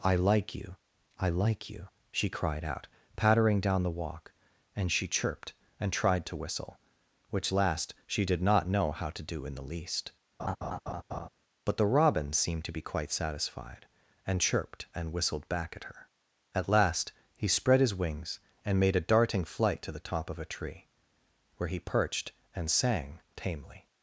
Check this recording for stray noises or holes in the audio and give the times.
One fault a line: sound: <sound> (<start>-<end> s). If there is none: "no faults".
sound: laugh (10.4-11.3 s)